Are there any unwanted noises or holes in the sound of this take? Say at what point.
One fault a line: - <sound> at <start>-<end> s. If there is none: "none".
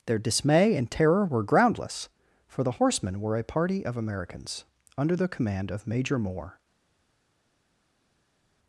none